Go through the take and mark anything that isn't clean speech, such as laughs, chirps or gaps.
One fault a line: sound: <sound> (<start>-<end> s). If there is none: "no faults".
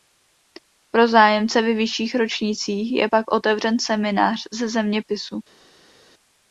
no faults